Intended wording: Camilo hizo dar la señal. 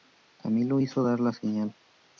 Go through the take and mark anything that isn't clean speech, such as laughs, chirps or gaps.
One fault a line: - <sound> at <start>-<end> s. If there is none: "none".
none